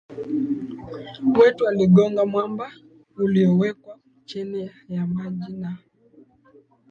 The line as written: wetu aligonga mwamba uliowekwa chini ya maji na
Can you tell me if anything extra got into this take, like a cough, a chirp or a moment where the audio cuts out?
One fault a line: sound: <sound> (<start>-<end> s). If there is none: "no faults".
no faults